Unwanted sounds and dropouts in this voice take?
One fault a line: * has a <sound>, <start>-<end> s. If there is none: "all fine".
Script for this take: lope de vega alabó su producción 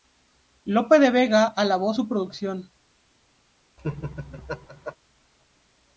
* has a laugh, 3.8-5.0 s